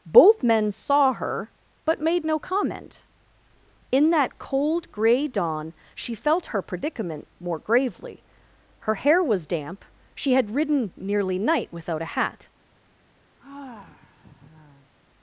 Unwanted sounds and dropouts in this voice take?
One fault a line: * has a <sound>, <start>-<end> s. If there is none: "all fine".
* has a sigh, 13.4-14.9 s